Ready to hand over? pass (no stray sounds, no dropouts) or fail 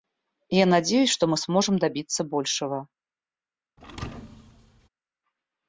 fail